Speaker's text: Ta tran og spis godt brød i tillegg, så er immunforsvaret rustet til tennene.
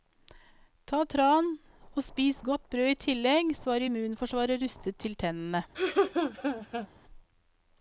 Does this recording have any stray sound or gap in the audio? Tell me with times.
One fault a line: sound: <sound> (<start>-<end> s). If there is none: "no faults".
sound: laugh (5.7-6.9 s)